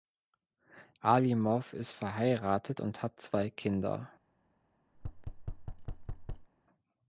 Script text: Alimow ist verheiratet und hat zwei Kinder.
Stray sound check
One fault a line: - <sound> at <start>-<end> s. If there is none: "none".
- thud at 4.9-6.5 s